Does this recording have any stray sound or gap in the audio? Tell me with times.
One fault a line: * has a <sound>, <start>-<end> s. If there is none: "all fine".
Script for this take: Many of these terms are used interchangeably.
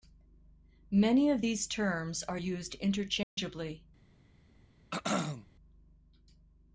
* has a dropout, 3.2-3.4 s
* has a throat clearing, 4.9-5.5 s